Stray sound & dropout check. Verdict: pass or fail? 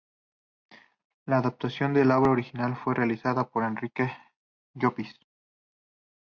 pass